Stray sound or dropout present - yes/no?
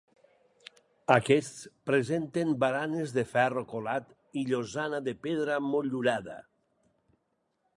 no